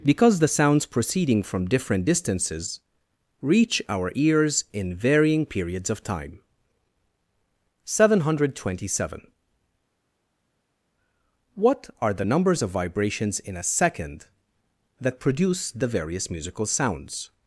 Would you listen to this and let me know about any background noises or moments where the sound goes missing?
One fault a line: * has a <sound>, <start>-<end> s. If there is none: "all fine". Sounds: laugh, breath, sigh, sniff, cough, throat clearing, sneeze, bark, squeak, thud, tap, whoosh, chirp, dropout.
all fine